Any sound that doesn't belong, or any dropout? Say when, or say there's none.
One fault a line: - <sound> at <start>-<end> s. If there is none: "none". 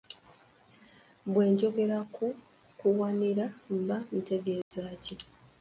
- dropout at 4.6-4.7 s